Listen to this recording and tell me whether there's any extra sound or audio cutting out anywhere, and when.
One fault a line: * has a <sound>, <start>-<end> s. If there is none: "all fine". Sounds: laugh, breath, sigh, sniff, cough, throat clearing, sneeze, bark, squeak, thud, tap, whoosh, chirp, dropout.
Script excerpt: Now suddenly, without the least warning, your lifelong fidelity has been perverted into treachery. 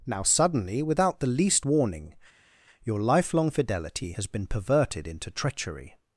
all fine